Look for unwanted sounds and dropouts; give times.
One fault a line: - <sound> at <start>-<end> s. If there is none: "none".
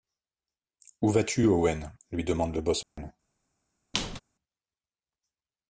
- dropout at 2.8-3.0 s
- squeak at 3.9-4.2 s